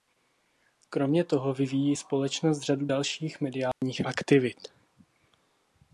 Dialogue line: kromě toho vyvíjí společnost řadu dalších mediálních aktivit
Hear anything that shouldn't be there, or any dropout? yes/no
yes